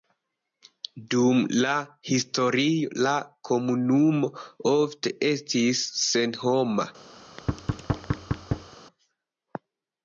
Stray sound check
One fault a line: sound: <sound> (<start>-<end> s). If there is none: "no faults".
sound: thud (7.2-8.8 s)